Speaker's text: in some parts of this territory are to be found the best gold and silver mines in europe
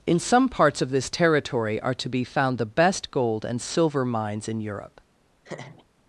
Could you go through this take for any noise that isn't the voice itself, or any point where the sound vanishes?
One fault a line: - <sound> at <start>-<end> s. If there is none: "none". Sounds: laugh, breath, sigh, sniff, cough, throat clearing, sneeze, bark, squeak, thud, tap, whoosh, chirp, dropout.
- laugh at 5.4-5.9 s